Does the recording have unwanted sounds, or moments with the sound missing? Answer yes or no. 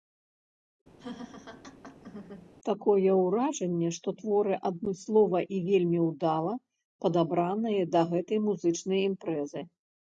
yes